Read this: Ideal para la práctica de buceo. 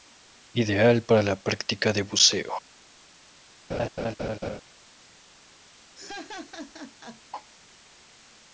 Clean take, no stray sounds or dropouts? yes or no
no